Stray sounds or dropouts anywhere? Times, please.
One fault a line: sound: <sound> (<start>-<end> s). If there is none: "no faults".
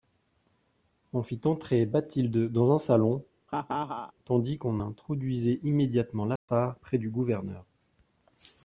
sound: laugh (3.5-4.1 s)
sound: dropout (6.4-6.5 s)